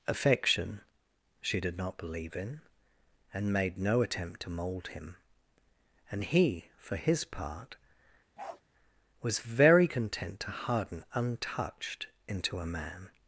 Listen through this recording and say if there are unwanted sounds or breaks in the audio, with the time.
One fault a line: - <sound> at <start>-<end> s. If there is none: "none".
- bark at 8.4-8.6 s